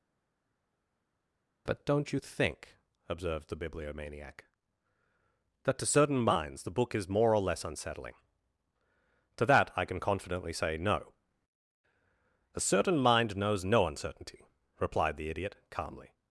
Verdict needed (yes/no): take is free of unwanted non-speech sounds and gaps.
yes